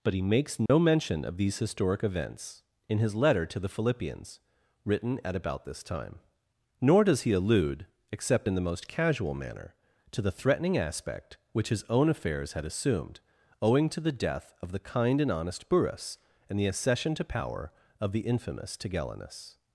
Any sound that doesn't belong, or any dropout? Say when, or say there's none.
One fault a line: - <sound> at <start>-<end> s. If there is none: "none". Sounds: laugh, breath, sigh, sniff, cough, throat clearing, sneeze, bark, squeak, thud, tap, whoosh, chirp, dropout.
- dropout at 0.7-0.7 s